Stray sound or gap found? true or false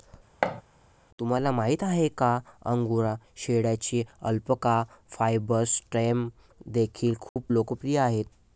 true